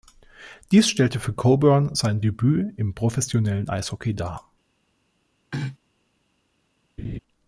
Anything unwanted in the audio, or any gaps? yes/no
yes